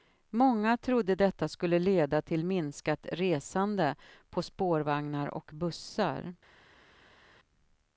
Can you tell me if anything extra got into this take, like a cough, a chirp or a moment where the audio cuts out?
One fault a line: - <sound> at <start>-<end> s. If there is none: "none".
none